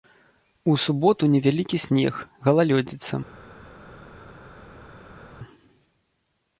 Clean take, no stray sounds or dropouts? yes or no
yes